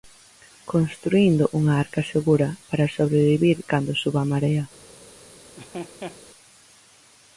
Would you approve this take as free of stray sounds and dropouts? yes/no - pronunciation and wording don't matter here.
no